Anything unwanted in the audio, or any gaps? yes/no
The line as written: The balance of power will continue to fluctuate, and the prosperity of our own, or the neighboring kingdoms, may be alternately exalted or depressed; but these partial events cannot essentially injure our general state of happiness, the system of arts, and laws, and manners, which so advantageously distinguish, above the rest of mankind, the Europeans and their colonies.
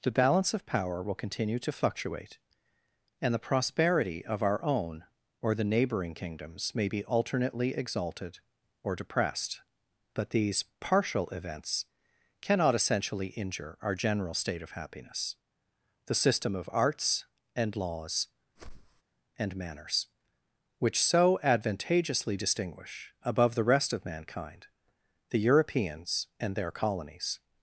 yes